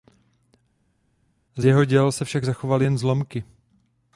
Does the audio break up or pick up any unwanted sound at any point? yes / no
no